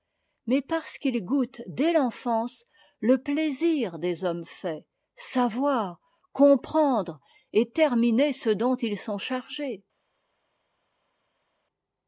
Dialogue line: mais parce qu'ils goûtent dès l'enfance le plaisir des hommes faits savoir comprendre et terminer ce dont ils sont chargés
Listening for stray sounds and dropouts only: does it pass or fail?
pass